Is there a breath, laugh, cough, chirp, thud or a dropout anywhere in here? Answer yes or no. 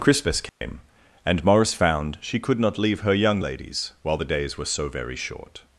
yes